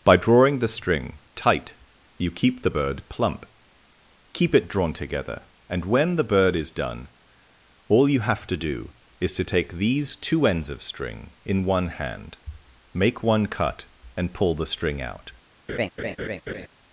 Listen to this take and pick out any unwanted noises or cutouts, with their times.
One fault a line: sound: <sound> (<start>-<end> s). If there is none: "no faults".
sound: laugh (15.7-16.7 s)